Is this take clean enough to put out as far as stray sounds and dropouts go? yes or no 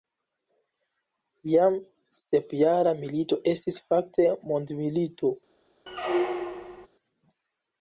no